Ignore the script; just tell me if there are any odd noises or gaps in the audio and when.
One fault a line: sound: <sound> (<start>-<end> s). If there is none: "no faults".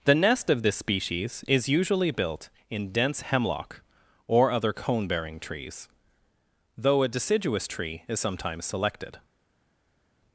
no faults